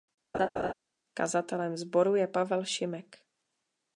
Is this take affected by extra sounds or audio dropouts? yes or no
yes